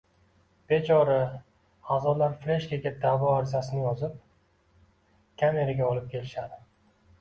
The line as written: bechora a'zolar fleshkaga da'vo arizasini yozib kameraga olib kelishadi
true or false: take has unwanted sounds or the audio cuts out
false